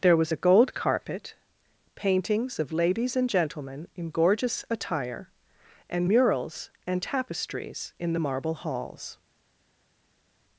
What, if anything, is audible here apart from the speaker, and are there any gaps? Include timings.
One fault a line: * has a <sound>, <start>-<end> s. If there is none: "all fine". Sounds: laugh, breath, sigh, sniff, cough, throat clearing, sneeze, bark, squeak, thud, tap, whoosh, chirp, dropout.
all fine